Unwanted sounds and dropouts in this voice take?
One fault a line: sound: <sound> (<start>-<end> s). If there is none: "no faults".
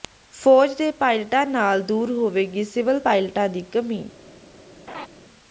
sound: laugh (4.9-5.1 s)